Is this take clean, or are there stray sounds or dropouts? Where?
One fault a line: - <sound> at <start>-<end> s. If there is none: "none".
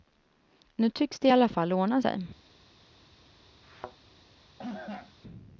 - thud at 3.6-4.0 s
- cough at 4.6-5.1 s